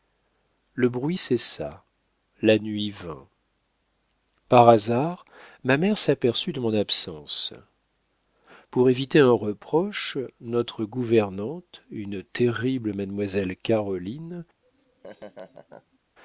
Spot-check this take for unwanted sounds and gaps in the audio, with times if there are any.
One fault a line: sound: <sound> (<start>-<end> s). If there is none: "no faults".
sound: laugh (14.6-16.0 s)